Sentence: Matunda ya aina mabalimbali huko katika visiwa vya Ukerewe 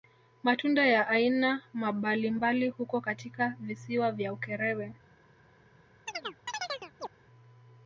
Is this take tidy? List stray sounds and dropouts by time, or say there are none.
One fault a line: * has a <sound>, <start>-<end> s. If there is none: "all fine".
* has a chirp, 6.1-7.1 s